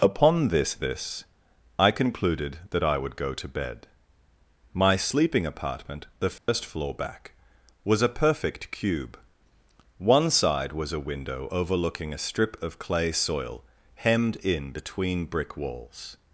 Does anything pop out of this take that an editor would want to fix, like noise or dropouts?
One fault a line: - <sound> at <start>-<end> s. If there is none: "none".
- dropout at 6.4-6.5 s